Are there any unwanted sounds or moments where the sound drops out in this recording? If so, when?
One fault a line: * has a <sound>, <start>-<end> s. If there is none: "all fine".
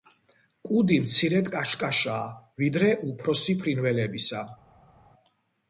all fine